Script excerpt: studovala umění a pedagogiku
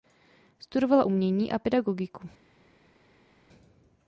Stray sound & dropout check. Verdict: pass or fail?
pass